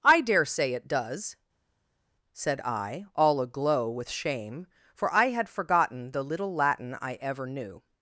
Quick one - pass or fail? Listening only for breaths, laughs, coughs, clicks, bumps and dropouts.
pass